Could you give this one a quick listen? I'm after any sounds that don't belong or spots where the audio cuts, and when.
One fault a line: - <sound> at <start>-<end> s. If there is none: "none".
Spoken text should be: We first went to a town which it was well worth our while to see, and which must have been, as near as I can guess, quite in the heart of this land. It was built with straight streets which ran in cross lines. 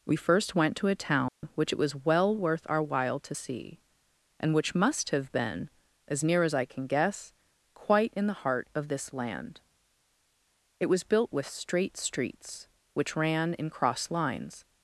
- dropout at 1.3-1.4 s